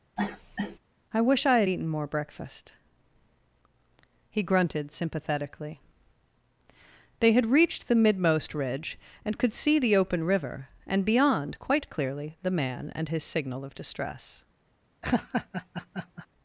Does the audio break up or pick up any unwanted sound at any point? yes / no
yes